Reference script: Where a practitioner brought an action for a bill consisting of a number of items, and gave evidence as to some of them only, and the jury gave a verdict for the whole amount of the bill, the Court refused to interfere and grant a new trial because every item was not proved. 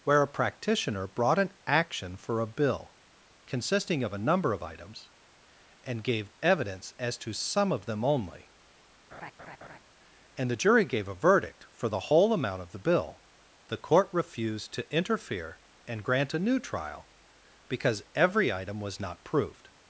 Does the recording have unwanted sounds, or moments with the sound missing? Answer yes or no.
yes